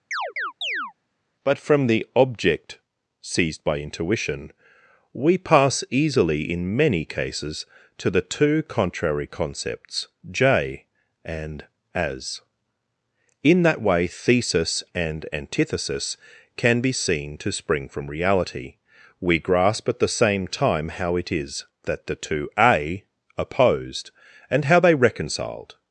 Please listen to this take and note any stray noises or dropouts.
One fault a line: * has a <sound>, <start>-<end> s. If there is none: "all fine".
* has a chirp, 0.1-0.9 s